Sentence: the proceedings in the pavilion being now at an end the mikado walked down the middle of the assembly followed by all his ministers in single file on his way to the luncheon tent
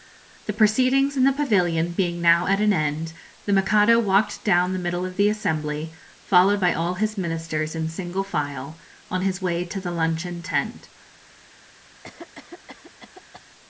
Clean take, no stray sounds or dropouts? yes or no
no